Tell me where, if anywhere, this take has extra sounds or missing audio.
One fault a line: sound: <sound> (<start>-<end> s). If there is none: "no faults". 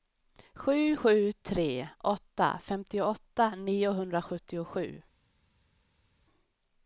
no faults